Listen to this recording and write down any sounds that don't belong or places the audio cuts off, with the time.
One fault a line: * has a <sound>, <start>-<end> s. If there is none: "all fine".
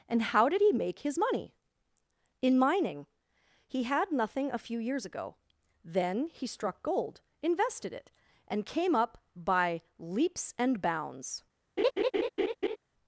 * has a laugh, 11.8-12.8 s